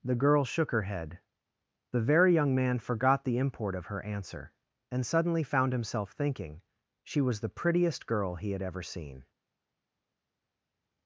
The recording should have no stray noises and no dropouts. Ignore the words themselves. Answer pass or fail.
pass